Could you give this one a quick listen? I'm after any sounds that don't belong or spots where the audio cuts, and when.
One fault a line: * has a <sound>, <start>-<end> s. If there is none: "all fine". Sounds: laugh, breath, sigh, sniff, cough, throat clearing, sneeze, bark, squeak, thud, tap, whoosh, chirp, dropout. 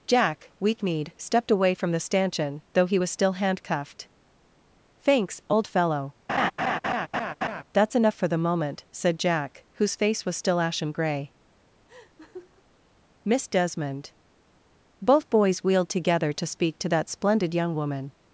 * has a laugh, 6.3-7.6 s
* has a laugh, 11.9-12.6 s